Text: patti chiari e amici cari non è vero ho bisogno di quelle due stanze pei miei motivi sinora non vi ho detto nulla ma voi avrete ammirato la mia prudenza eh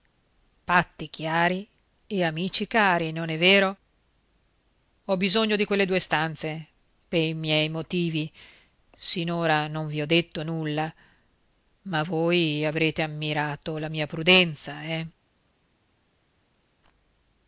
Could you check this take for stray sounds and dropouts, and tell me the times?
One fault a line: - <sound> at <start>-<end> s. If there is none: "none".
none